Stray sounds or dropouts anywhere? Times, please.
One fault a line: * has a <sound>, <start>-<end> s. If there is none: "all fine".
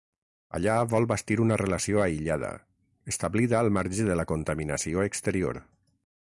all fine